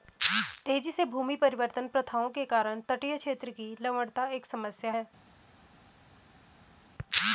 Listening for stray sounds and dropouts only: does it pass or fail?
pass